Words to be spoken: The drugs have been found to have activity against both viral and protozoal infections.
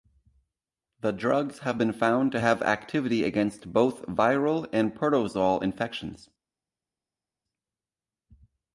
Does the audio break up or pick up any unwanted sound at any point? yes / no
no